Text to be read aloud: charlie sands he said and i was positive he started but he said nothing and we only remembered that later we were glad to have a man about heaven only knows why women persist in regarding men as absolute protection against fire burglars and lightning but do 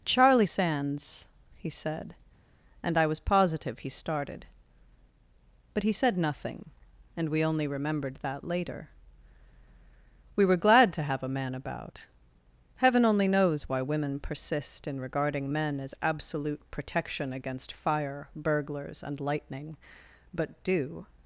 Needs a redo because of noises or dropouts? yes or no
no